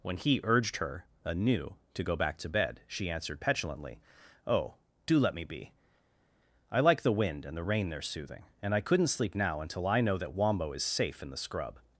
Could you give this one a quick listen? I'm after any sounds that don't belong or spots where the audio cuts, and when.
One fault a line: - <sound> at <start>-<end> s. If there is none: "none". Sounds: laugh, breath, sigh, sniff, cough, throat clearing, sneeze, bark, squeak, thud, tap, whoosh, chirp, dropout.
none